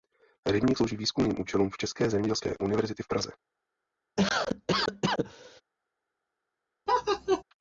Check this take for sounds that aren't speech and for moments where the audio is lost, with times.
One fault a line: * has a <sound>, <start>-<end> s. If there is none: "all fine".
* has a cough, 4.2-5.6 s
* has a laugh, 6.9-7.4 s